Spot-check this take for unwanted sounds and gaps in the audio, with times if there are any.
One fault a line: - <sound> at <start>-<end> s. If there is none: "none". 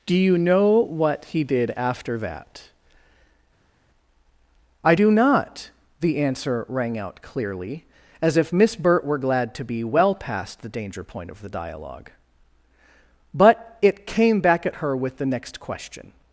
none